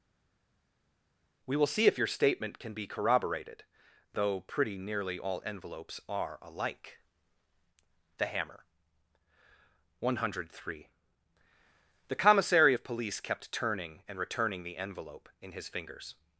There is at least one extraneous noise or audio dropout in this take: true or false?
false